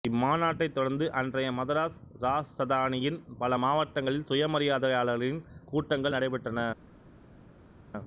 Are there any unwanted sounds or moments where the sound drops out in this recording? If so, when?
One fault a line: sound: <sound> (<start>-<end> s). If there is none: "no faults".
no faults